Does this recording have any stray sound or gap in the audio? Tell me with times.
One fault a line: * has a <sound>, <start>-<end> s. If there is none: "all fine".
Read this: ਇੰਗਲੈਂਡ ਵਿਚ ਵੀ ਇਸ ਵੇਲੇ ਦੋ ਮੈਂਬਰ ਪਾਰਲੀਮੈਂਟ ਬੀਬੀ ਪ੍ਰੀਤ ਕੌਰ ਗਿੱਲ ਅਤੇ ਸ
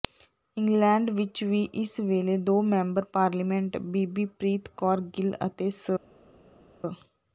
all fine